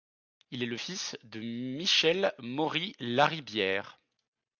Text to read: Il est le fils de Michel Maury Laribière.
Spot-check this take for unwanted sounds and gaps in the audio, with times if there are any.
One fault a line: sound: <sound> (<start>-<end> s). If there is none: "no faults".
no faults